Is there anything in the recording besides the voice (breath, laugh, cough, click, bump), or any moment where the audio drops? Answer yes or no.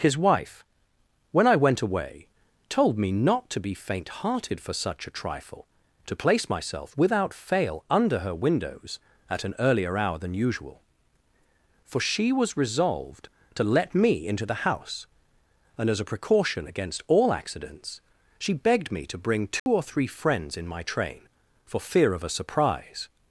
yes